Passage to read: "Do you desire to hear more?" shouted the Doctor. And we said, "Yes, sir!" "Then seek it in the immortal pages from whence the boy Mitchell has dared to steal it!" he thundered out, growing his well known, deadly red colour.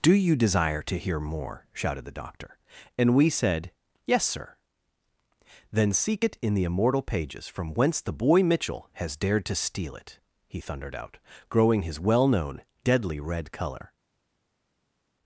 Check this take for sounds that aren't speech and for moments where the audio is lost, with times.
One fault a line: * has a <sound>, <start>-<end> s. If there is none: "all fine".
all fine